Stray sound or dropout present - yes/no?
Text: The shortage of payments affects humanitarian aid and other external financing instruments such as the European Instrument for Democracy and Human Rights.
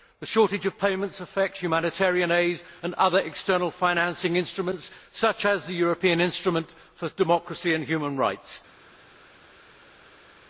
no